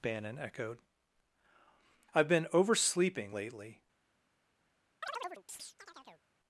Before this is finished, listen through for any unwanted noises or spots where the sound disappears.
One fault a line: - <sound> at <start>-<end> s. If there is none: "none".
- chirp at 5.0-6.3 s